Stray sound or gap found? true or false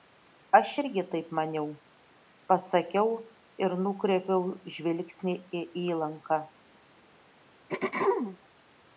true